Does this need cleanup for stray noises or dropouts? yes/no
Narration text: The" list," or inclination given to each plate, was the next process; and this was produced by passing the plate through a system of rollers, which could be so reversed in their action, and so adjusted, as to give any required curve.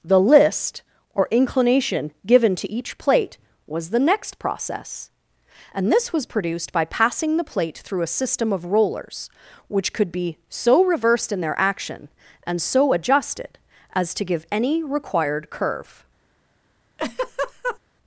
yes